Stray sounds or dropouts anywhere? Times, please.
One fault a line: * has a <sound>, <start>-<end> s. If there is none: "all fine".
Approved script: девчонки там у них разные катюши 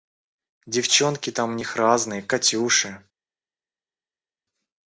all fine